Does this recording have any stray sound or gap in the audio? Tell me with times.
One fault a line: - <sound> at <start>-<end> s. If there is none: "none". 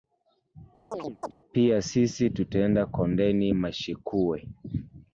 - chirp at 0.9-1.3 s